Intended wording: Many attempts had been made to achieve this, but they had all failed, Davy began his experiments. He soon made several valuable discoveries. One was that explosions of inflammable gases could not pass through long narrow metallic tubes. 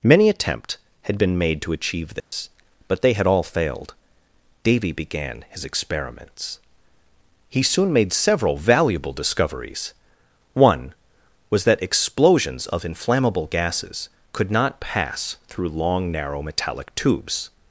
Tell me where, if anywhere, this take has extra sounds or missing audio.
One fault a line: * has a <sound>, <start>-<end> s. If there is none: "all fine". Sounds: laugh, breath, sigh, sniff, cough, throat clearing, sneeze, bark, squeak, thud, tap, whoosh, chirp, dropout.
* has a dropout, 2.2-2.3 s